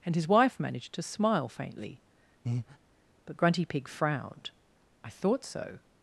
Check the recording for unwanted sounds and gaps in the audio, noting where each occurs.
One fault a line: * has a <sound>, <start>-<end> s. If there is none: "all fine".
* has a breath, 2.4-2.8 s